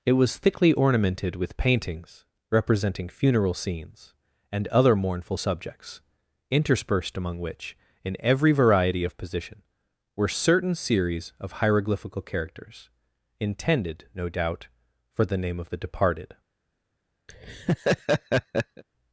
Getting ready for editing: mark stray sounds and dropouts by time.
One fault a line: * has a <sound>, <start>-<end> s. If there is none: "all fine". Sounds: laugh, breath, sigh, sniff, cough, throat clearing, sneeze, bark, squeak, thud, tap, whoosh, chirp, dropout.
* has a laugh, 17.3-18.8 s